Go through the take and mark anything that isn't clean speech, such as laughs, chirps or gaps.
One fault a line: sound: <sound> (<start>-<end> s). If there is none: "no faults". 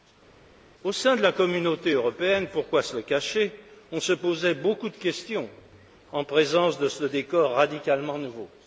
no faults